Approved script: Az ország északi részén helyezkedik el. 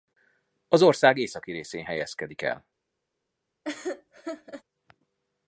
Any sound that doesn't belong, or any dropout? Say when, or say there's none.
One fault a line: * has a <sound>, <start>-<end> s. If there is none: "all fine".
* has a laugh, 3.6-4.6 s